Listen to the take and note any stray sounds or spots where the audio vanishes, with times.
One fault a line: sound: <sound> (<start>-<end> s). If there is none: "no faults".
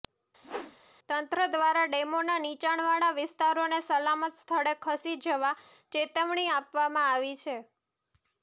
sound: whoosh (0.4-0.8 s)